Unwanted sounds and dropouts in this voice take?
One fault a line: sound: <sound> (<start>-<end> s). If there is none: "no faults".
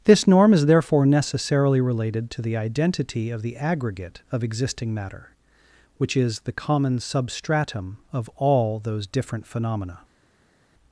no faults